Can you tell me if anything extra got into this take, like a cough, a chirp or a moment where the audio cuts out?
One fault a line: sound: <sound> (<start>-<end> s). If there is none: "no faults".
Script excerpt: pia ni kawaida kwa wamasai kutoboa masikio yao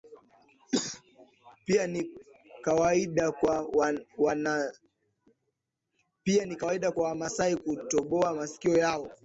no faults